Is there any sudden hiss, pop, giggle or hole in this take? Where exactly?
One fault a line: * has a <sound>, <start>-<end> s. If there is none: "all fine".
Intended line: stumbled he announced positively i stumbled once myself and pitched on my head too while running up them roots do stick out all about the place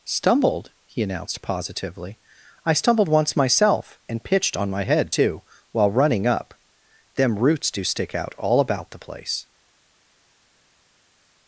all fine